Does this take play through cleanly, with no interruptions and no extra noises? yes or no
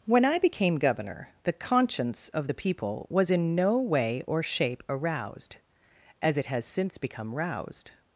yes